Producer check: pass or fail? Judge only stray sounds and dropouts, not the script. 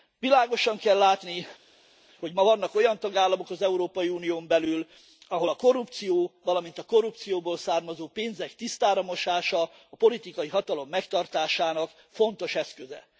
pass